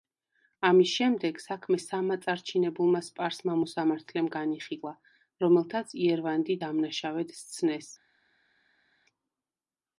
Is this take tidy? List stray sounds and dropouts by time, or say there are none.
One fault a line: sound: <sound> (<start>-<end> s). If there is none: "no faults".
no faults